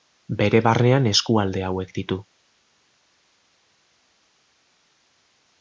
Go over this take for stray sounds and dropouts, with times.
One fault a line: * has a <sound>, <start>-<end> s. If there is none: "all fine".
all fine